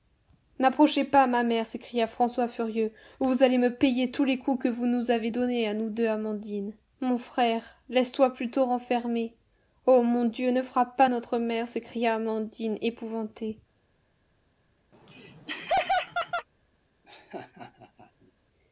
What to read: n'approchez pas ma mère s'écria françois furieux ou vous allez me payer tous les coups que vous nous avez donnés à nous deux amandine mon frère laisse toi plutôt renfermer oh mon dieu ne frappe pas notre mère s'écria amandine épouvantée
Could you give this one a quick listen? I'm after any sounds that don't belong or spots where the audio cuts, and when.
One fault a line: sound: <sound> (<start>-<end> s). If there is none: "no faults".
sound: laugh (14.9-16.5 s)
sound: laugh (17.0-18.3 s)